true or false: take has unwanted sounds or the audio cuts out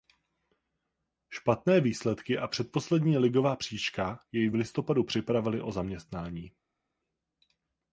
false